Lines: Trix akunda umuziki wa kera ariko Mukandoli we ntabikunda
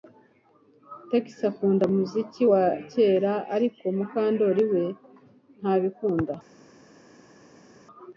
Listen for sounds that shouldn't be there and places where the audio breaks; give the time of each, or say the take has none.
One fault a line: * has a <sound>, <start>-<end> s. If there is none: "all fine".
all fine